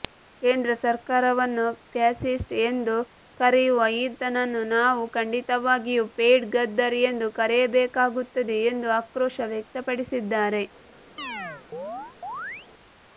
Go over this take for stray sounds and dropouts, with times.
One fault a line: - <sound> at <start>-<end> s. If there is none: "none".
- chirp at 11.2-12.7 s